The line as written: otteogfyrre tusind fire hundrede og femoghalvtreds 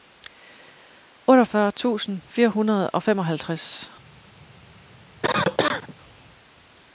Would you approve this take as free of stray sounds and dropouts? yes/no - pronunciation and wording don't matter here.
no